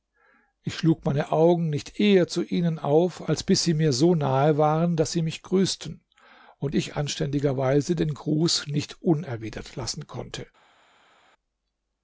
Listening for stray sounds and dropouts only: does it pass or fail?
pass